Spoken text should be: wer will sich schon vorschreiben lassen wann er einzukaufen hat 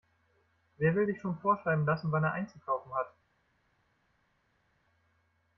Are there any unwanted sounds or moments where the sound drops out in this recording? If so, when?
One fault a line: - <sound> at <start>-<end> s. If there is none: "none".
none